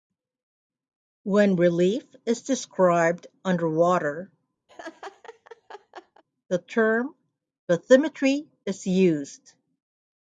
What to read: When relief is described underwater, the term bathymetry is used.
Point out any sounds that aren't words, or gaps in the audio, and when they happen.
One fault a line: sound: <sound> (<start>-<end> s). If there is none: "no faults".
sound: laugh (4.7-6.2 s)